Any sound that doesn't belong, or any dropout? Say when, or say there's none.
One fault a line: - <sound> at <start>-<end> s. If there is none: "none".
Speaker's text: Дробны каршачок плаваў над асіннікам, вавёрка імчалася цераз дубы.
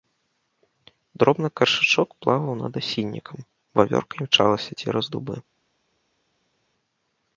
none